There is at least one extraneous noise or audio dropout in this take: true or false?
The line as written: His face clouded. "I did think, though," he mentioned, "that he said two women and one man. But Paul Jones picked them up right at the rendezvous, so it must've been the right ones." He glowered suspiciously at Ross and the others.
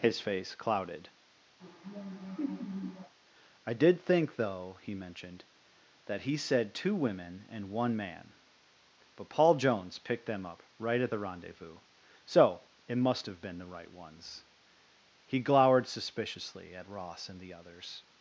true